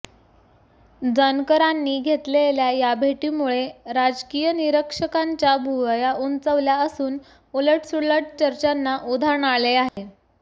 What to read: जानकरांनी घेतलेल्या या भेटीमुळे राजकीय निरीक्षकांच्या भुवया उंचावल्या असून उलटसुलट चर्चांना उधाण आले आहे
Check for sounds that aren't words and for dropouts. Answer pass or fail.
fail